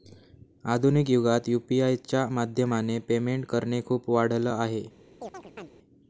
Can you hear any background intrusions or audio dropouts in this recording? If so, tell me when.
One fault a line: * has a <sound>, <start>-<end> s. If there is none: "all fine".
* has a chirp, 5.2-5.7 s